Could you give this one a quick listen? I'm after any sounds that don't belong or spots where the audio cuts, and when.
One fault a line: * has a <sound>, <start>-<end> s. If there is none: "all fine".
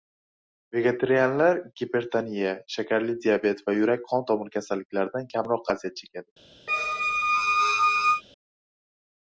* has a squeak, 6.7-8.2 s